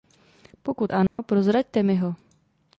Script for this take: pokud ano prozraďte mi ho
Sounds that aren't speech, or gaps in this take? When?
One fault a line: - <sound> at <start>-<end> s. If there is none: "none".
- dropout at 1.1-1.2 s